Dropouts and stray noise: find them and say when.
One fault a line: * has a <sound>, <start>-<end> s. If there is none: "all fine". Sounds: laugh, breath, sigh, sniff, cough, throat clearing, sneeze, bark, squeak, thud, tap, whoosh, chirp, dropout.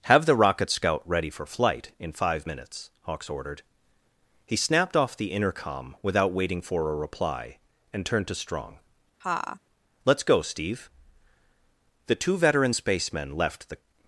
* has a laugh, 9.2-9.6 s